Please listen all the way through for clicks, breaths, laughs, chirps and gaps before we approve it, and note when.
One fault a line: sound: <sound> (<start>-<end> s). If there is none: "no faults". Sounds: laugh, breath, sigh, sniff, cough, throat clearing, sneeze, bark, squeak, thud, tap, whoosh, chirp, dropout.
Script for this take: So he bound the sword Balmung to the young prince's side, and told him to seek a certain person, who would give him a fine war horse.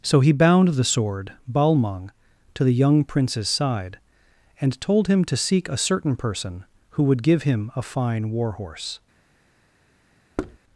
sound: thud (10.4-10.6 s)